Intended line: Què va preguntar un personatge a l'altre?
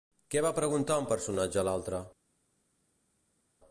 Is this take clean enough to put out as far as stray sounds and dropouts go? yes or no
yes